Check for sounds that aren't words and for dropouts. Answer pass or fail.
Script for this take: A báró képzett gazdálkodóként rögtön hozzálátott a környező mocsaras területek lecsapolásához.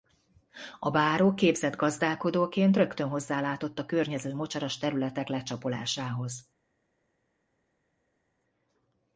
pass